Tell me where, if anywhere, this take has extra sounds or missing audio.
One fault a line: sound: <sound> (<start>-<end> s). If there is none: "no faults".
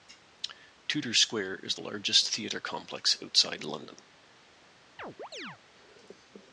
sound: chirp (5.0-5.6 s)